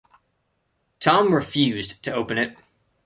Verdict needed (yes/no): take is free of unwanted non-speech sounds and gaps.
yes